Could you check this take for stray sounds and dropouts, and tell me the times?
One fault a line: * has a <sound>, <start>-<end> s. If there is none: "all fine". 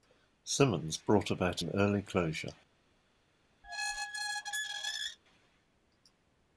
* has a squeak, 3.6-5.2 s